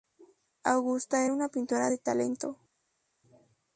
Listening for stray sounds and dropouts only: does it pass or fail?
pass